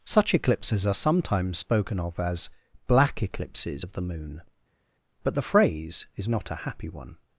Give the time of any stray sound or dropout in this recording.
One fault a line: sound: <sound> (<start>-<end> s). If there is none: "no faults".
no faults